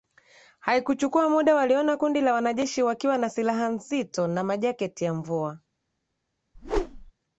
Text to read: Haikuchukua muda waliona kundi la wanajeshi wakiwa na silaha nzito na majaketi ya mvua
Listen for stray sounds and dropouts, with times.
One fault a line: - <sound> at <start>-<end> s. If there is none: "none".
- whoosh at 6.5-7.1 s